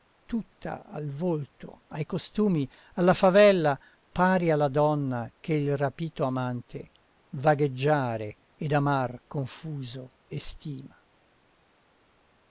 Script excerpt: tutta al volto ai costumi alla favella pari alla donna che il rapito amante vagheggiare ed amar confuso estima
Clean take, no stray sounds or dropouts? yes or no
yes